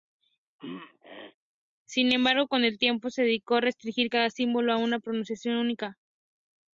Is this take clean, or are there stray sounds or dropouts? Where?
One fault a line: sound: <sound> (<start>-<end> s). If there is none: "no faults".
sound: throat clearing (0.6-1.4 s)